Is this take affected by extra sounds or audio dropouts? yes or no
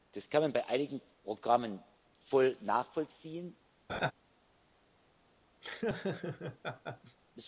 yes